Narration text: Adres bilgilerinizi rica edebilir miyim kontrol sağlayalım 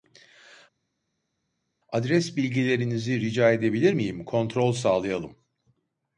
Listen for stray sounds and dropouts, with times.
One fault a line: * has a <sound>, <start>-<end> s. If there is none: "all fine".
all fine